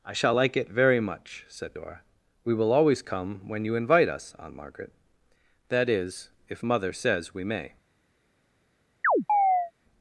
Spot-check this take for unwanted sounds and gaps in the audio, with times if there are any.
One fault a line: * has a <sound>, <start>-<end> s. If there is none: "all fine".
* has a chirp, 9.0-9.7 s